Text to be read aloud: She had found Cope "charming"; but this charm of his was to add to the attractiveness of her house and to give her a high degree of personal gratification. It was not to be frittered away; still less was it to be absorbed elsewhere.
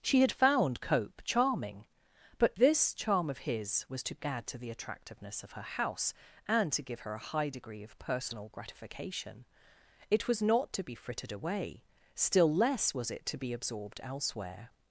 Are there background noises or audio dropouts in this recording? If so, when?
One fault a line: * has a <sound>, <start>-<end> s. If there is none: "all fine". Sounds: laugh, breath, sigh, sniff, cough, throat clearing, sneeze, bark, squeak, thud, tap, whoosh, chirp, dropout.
all fine